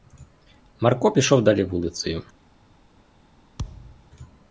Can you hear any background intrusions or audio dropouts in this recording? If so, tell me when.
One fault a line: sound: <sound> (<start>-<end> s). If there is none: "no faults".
sound: thud (3.6-4.1 s)